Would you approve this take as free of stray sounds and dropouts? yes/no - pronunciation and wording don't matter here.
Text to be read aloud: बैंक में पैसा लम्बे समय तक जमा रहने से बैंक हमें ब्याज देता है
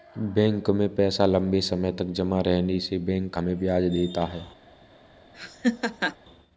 no